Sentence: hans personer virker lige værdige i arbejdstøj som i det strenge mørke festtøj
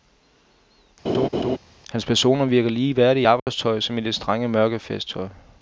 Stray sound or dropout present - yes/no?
yes